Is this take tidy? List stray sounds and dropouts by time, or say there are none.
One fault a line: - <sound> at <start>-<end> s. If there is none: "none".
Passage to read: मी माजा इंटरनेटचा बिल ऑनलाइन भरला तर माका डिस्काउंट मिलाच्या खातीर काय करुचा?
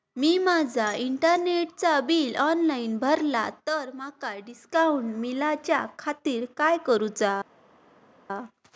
none